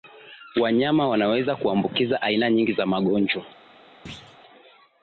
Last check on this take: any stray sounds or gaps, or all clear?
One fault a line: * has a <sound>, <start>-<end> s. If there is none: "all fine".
* has a thud, 4.1-4.4 s